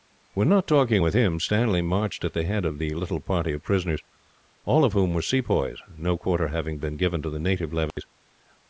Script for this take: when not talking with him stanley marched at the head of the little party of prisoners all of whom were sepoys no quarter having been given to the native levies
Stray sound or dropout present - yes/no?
yes